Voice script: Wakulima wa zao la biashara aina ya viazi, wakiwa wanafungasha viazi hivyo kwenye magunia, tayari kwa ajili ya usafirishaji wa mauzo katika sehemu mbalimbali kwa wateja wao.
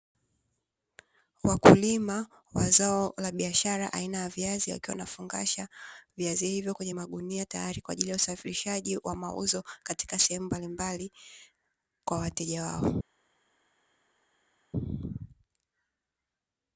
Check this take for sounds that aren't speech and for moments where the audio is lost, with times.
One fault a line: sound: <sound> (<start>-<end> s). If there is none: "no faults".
no faults